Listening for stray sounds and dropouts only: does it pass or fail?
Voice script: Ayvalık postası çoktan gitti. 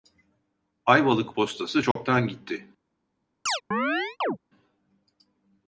fail